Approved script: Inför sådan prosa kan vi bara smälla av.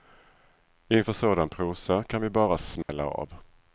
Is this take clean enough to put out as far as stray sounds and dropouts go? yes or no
no